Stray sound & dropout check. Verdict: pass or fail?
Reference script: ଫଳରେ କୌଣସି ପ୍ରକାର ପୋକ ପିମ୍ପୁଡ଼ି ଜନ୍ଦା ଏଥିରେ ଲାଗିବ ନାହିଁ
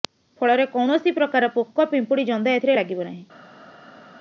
pass